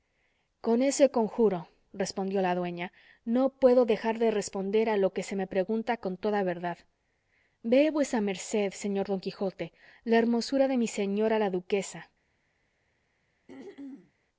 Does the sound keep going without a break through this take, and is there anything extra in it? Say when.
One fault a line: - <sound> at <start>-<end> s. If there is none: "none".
- throat clearing at 13.5-14.1 s